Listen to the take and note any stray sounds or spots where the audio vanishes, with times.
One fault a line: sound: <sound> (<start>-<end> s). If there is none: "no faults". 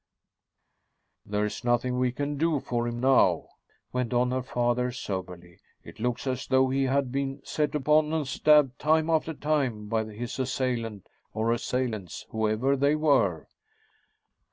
no faults